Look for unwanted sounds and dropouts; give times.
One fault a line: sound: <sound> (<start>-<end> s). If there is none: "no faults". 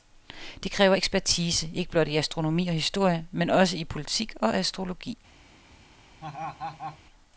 sound: laugh (6.2-7.0 s)